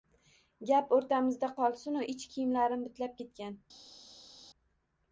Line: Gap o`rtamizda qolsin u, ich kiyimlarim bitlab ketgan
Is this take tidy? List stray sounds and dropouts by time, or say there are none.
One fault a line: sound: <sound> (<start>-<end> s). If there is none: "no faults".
no faults